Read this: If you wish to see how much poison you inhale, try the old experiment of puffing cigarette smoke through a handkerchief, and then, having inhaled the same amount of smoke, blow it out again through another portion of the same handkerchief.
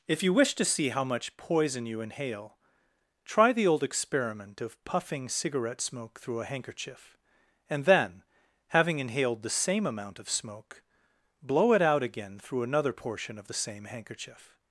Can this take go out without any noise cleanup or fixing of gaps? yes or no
yes